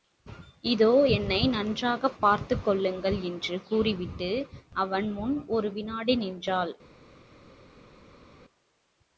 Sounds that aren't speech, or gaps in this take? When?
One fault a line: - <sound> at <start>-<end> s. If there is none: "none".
none